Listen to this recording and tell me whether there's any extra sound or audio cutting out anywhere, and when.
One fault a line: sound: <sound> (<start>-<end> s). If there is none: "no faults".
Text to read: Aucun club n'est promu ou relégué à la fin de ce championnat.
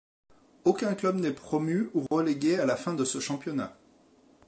sound: dropout (2.1-2.1 s)